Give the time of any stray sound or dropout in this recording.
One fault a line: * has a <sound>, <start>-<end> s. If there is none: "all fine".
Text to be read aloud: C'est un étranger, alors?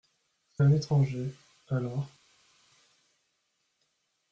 all fine